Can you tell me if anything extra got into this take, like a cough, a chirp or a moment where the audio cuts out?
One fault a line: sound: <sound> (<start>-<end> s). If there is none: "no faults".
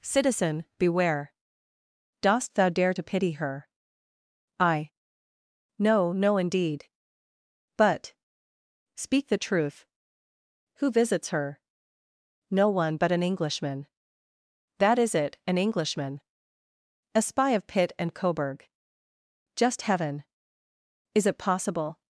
no faults